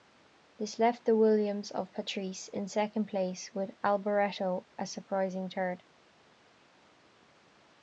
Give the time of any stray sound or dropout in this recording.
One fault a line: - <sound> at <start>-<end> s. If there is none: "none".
none